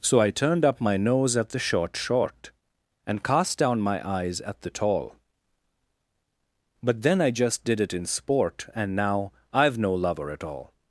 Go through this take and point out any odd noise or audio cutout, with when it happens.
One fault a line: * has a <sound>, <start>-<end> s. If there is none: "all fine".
all fine